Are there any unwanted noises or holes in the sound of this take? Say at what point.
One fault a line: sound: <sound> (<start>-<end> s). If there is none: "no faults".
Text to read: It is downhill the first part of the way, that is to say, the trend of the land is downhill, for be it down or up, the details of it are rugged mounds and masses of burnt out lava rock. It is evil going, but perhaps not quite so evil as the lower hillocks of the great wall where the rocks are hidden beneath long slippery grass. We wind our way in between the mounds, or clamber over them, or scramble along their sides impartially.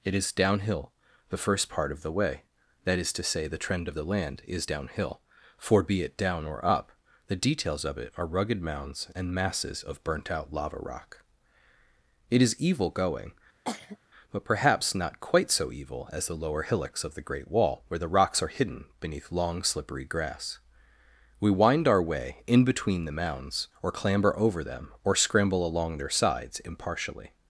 sound: cough (13.7-14.0 s)